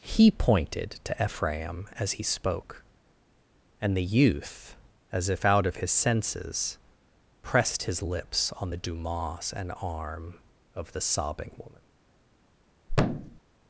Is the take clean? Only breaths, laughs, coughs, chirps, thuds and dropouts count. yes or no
no